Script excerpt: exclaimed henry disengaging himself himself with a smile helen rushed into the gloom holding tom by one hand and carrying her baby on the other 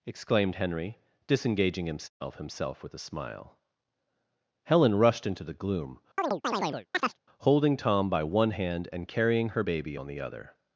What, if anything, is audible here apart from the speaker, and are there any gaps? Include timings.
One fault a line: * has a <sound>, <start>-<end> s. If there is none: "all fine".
* has a chirp, 6.2-7.2 s